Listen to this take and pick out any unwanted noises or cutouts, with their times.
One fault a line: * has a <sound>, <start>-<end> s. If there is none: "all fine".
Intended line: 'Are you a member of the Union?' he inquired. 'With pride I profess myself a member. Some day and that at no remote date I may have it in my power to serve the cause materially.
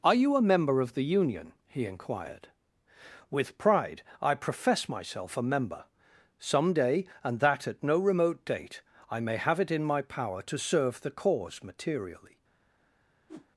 * has a whoosh, 13.3-13.5 s